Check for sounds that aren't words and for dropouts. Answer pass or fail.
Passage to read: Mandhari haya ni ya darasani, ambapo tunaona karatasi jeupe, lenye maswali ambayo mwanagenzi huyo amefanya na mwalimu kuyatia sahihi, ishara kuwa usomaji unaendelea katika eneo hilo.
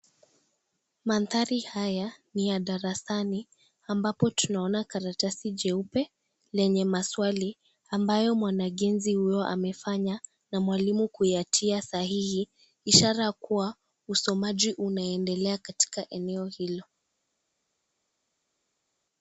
pass